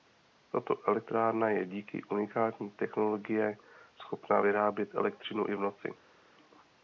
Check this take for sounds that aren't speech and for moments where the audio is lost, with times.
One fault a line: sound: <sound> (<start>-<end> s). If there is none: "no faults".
no faults